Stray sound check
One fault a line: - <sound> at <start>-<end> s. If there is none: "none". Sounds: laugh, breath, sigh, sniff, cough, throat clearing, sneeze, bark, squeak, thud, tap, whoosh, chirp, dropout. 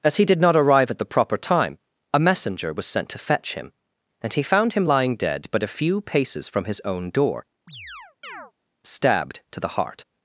- chirp at 7.7-8.5 s